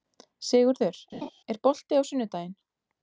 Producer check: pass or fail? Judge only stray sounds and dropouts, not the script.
fail